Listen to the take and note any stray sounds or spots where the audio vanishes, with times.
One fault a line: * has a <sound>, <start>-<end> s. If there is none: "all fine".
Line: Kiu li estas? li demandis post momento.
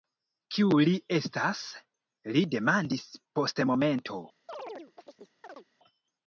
* has a chirp, 4.5-5.7 s